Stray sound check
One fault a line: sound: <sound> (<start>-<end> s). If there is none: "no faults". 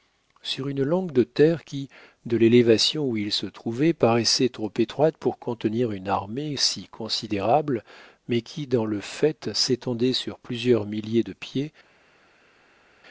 no faults